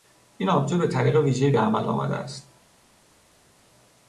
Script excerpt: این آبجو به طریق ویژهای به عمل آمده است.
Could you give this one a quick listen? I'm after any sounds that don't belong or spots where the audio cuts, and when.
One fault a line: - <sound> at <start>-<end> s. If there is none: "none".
none